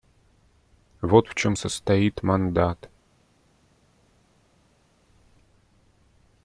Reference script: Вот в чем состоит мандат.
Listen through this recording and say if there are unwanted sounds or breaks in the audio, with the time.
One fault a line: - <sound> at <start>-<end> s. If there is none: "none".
none